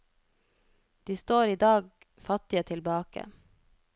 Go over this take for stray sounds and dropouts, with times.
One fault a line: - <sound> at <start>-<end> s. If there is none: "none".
none